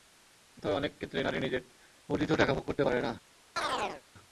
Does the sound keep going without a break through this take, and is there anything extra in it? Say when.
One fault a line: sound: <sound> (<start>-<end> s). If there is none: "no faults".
sound: chirp (3.6-4.0 s)